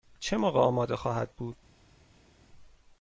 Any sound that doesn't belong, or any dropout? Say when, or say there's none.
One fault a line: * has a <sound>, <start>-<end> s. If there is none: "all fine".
all fine